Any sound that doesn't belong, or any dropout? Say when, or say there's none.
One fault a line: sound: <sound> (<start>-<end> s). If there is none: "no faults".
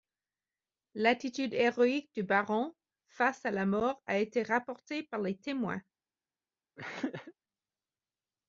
sound: throat clearing (6.8-7.3 s)